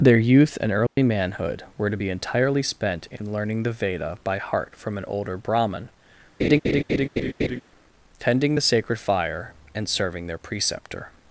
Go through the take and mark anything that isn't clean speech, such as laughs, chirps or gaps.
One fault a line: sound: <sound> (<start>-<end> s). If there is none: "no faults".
sound: dropout (0.9-1.0 s)
sound: laugh (6.4-7.6 s)